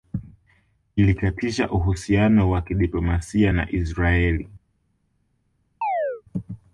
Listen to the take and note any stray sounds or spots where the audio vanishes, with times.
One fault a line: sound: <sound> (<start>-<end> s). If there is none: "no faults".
sound: chirp (5.8-6.2 s)